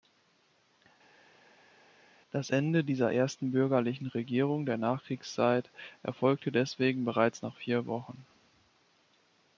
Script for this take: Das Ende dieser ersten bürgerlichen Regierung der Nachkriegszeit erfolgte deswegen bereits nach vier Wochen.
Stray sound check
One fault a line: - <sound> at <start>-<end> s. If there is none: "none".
none